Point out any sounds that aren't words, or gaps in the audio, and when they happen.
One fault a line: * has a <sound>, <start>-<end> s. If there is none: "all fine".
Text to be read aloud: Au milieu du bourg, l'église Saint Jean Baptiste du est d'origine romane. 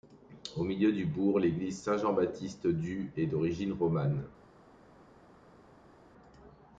all fine